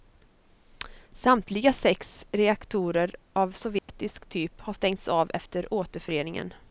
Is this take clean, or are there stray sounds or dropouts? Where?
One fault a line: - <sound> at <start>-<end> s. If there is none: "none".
- dropout at 3.8-3.9 s